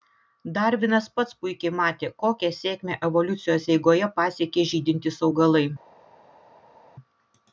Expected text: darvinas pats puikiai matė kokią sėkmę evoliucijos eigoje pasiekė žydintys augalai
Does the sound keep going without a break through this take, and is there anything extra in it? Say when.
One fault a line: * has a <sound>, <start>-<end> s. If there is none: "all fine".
all fine